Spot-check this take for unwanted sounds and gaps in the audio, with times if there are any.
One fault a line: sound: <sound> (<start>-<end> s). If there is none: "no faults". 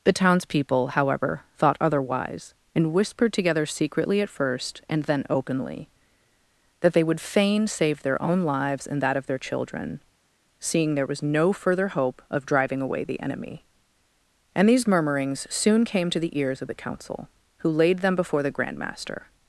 no faults